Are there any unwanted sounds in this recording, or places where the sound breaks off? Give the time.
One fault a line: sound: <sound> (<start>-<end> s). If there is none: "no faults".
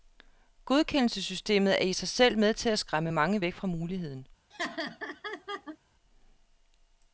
sound: laugh (4.5-5.8 s)